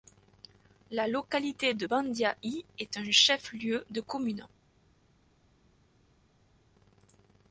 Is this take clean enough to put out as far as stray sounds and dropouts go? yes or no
yes